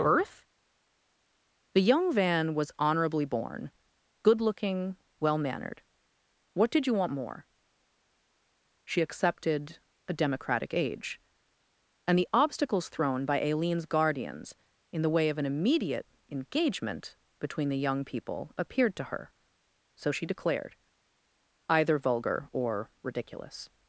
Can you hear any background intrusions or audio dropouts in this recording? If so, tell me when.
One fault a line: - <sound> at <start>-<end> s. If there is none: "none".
none